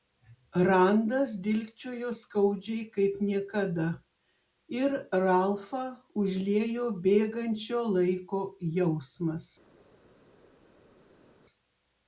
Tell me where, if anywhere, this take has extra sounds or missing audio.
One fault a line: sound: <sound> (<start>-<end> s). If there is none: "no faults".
no faults